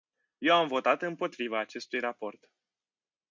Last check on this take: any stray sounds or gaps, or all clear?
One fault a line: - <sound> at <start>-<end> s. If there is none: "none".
none